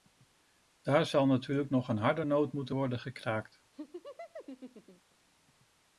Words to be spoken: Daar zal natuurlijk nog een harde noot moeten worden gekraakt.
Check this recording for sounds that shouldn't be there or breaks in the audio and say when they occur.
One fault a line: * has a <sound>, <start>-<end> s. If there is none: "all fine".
* has a laugh, 3.7-5.2 s